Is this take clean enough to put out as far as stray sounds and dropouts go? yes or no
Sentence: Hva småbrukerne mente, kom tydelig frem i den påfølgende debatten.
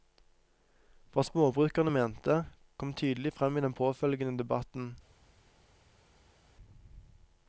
yes